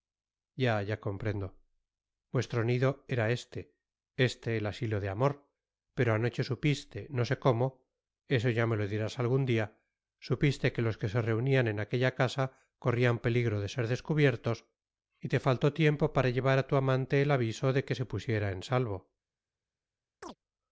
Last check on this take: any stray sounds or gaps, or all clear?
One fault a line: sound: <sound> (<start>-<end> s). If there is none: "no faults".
sound: chirp (20.2-20.4 s)